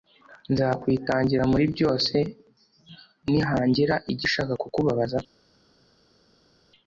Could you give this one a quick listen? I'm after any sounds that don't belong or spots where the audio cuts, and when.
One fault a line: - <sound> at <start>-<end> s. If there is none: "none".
none